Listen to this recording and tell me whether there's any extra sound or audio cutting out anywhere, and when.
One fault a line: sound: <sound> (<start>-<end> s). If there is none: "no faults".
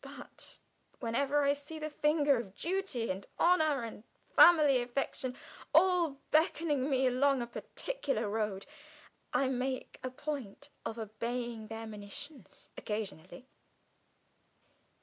no faults